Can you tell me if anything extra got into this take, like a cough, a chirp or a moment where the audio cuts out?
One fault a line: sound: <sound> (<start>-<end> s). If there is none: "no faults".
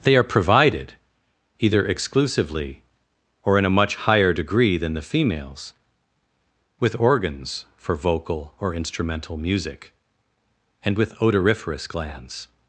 no faults